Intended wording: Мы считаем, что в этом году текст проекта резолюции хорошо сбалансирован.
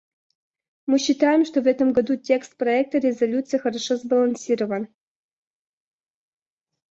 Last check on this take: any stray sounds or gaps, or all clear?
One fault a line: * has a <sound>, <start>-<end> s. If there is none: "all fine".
all fine